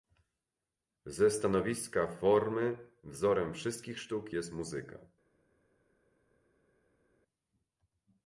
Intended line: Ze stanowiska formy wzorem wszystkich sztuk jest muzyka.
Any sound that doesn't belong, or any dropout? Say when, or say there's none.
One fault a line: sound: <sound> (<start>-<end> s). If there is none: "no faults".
no faults